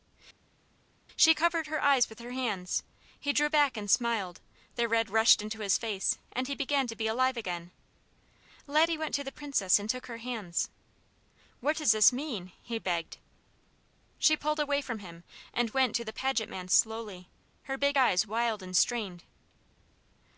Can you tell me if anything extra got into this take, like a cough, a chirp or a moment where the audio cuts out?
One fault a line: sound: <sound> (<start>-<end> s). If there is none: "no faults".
no faults